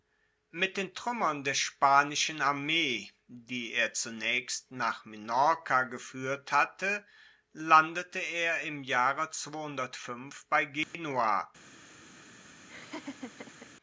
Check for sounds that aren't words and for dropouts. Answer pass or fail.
fail